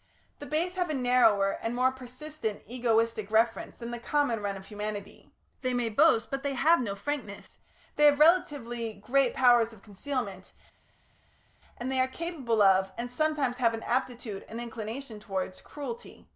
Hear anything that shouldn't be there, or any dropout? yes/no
no